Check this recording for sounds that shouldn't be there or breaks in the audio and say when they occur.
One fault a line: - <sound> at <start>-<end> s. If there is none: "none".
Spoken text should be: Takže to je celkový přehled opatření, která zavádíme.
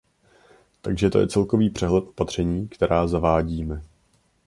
none